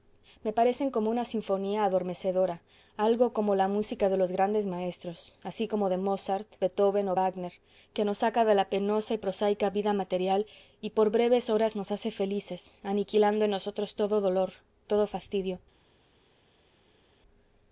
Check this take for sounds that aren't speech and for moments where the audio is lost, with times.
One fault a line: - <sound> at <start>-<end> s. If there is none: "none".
none